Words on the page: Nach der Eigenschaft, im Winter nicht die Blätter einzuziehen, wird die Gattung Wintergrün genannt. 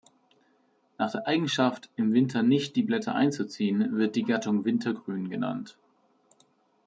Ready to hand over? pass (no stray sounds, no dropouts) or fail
pass